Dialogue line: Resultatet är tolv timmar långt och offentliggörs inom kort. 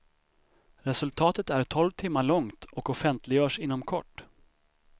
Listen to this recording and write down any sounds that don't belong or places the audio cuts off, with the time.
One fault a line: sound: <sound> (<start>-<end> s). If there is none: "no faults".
no faults